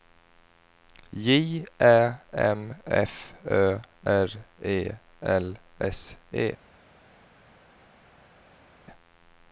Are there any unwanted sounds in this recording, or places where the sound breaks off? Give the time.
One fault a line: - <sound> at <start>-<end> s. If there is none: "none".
none